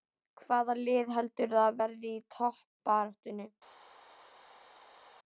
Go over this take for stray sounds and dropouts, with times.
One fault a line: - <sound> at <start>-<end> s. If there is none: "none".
none